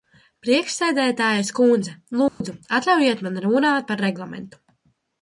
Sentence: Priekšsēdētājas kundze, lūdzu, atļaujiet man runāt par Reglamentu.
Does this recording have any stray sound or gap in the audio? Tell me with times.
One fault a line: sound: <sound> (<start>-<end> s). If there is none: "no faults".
sound: dropout (2.3-2.4 s)